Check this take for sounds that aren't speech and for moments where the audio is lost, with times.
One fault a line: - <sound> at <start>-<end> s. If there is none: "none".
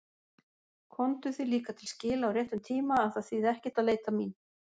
none